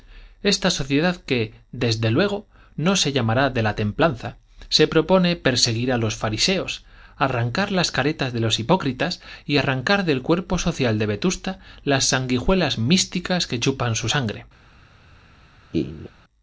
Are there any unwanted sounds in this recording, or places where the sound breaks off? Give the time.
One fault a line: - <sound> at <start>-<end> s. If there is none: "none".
- laugh at 15.7-16.1 s